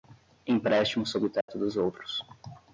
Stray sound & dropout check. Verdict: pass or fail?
fail